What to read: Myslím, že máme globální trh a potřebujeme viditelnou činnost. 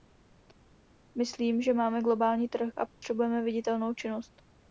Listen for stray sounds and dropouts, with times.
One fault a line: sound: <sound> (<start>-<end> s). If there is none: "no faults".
sound: dropout (2.9-3.0 s)